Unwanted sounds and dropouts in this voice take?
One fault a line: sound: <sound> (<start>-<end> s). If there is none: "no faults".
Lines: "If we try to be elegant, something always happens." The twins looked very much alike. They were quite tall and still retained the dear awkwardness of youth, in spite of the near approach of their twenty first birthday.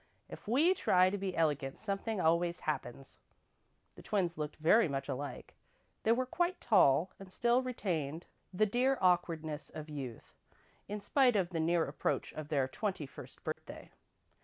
sound: dropout (13.5-13.6 s)